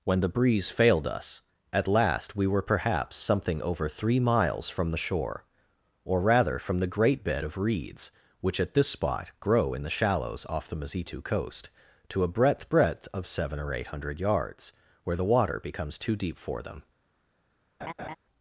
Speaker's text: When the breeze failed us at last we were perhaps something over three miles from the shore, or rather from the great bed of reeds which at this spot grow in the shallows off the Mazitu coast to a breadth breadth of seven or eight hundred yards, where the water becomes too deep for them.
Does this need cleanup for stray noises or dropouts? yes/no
yes